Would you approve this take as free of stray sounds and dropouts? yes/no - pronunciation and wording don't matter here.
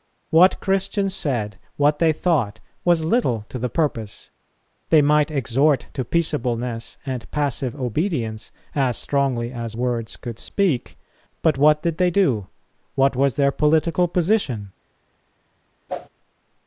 no